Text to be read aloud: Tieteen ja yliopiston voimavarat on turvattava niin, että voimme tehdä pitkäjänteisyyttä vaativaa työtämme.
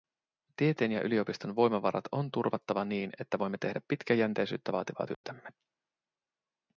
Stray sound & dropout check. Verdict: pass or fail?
fail